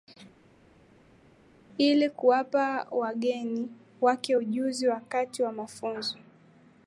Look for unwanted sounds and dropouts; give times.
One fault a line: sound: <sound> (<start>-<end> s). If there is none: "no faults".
no faults